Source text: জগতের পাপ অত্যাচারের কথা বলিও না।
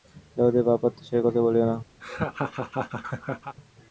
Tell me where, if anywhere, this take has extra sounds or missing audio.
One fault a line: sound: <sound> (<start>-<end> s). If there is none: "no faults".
sound: laugh (2.0-3.6 s)